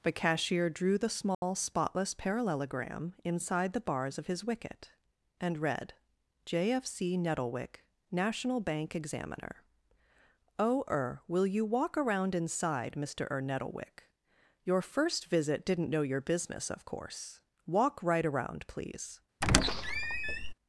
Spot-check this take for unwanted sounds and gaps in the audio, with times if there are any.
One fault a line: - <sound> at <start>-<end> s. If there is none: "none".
- dropout at 1.3-1.4 s
- squeak at 19.4-20.5 s